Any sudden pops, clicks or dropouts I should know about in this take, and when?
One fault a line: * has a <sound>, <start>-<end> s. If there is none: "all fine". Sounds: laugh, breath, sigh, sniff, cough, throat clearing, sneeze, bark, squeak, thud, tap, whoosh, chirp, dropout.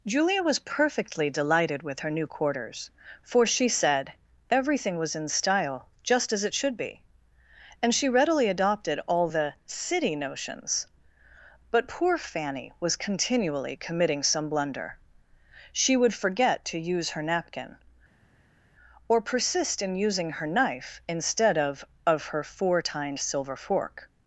all fine